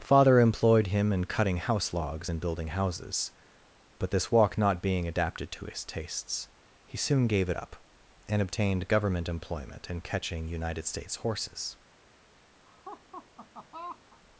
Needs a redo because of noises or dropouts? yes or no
yes